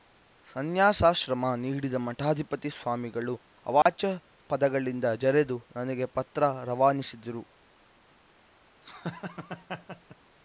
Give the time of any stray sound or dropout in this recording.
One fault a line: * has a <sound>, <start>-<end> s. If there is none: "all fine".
* has a dropout, 3.8-3.9 s
* has a laugh, 8.8-10.2 s